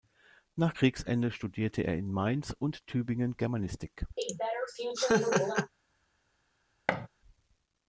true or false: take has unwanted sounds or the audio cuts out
true